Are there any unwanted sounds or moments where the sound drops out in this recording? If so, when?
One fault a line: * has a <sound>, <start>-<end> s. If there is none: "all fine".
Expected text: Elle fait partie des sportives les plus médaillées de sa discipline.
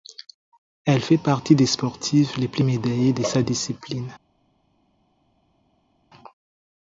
all fine